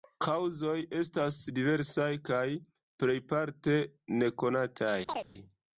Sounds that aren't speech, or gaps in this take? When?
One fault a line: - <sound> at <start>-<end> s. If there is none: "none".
- chirp at 5.1-5.3 s